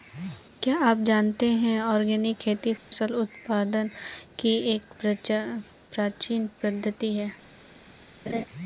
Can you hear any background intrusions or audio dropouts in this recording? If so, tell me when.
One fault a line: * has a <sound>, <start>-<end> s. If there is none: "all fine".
* has a dropout, 2.8-2.9 s
* has a laugh, 8.3-8.5 s